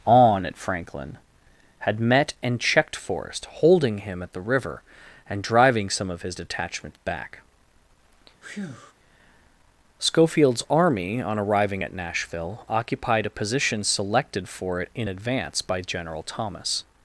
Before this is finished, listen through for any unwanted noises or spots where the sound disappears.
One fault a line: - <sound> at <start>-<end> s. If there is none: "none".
- breath at 8.4-8.9 s